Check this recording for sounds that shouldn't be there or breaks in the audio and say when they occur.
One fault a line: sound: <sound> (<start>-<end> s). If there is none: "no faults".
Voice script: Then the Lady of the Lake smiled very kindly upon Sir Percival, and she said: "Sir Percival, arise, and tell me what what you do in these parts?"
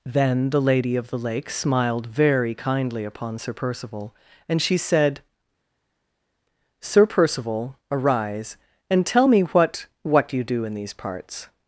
no faults